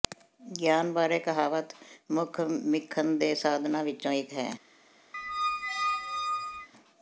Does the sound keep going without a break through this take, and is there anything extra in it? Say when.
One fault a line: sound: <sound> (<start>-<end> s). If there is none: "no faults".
sound: squeak (5.1-6.7 s)